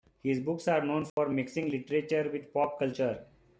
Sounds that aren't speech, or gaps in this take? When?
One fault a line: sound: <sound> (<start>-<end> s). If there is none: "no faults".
sound: dropout (1.1-1.2 s)